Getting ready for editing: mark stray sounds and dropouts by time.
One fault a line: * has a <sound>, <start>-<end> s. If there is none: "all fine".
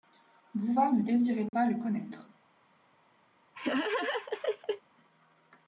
* has a dropout, 1.5-1.5 s
* has a laugh, 3.5-4.8 s